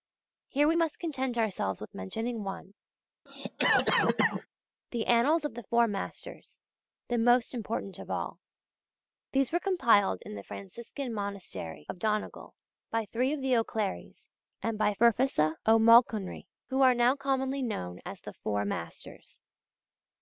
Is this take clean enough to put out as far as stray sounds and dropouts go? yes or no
no